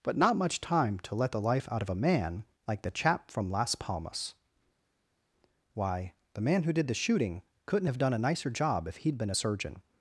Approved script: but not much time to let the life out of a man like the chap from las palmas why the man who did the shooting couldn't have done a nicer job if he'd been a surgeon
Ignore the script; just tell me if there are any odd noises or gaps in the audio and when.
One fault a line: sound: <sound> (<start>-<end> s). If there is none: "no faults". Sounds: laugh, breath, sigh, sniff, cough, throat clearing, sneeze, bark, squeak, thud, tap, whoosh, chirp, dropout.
no faults